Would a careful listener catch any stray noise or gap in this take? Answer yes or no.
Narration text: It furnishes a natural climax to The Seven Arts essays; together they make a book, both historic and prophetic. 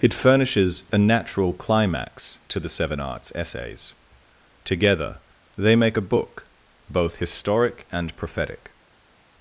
no